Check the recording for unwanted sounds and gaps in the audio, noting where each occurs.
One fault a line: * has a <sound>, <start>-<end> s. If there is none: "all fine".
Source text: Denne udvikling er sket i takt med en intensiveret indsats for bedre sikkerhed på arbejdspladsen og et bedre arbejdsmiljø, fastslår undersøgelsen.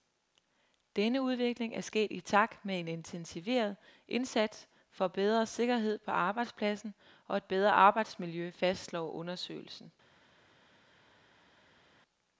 all fine